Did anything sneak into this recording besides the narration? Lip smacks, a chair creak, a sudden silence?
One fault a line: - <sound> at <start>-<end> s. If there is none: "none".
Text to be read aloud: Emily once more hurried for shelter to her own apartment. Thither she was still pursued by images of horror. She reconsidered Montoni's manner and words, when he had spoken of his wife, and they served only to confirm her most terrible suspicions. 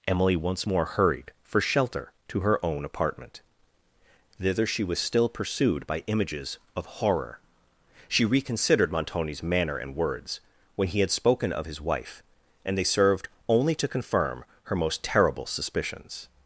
none